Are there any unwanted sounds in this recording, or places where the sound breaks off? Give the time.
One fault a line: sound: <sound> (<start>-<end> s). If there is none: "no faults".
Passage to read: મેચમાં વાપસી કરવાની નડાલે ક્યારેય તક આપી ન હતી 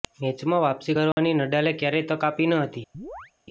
sound: dropout (1.1-1.2 s)
sound: chirp (2.9-3.3 s)